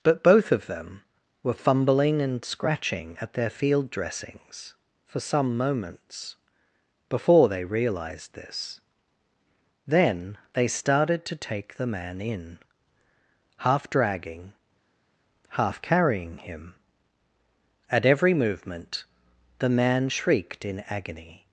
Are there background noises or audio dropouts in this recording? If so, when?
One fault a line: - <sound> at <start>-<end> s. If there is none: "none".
none